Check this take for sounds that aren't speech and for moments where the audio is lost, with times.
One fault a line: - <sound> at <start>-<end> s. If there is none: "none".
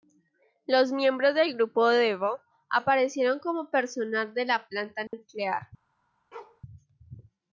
- dropout at 5.1-5.1 s
- bark at 6.3-6.6 s